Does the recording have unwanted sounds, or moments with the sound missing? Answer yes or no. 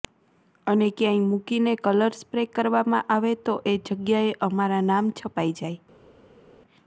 no